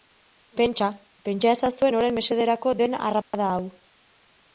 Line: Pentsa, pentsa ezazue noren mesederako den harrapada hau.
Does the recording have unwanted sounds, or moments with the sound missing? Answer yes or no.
yes